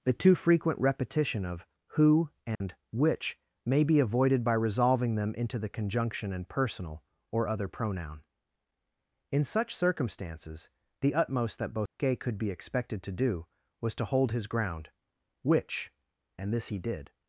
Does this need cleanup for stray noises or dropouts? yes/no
yes